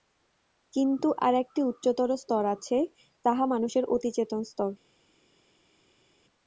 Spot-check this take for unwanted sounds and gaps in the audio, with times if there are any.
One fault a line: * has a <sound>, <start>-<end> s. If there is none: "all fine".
all fine